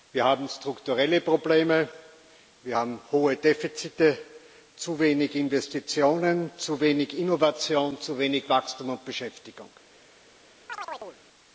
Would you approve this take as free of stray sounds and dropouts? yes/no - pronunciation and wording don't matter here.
no